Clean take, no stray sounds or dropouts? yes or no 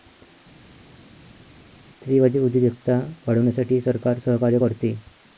yes